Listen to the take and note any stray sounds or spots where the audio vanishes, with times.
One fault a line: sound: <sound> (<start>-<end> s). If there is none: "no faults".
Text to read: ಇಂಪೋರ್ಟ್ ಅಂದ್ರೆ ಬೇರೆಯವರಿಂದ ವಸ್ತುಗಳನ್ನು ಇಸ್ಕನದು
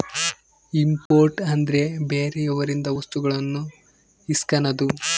sound: dropout (1.1-1.1 s)